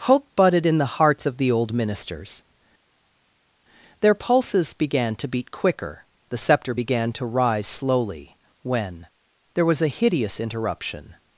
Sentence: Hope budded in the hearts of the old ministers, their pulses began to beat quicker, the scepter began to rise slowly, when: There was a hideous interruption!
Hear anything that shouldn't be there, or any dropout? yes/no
no